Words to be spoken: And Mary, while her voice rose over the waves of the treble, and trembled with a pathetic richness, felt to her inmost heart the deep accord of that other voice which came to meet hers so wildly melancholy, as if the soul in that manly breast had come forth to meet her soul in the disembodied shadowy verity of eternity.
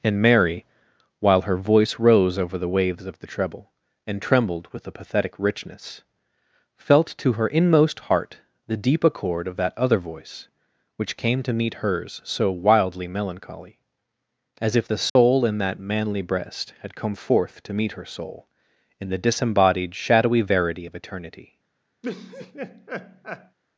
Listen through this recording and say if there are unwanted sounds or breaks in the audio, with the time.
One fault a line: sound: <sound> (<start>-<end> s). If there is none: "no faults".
sound: dropout (15.1-15.2 s)
sound: laugh (22.0-23.6 s)